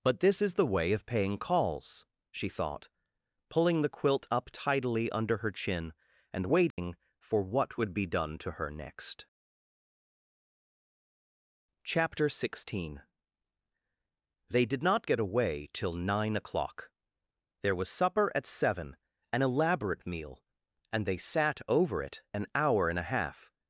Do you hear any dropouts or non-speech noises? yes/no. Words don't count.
yes